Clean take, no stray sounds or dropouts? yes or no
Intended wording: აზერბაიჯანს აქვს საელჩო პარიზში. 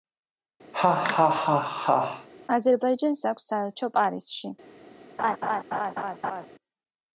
no